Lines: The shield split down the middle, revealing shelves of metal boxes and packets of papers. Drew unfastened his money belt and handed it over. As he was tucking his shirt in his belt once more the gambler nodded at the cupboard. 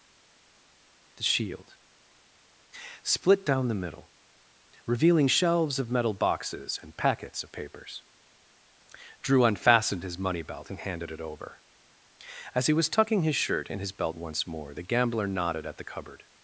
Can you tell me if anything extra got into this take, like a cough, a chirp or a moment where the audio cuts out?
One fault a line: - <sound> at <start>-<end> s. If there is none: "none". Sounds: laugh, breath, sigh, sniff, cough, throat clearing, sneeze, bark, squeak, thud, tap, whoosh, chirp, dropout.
none